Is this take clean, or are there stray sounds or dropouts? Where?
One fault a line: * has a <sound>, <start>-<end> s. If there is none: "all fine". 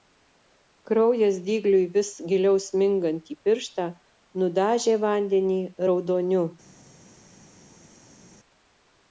all fine